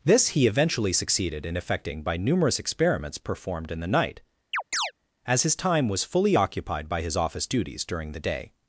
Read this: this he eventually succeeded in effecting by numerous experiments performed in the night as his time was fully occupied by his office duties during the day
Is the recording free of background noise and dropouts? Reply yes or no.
no